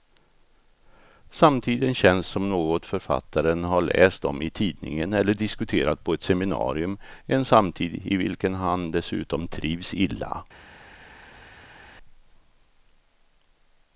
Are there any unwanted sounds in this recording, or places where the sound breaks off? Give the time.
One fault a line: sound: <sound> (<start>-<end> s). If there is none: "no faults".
no faults